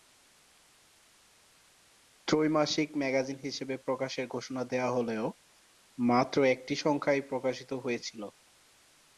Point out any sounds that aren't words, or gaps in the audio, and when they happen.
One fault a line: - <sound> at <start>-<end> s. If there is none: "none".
none